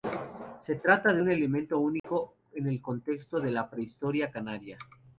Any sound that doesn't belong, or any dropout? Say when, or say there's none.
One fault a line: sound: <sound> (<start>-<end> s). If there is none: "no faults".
sound: dropout (2.0-2.0 s)